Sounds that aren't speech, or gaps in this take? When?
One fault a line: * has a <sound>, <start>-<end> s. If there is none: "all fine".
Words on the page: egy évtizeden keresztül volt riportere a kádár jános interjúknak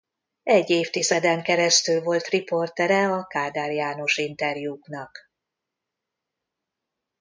all fine